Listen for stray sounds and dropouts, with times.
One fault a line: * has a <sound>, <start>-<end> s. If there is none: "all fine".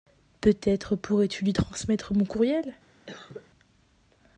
* has a cough, 3.1-3.5 s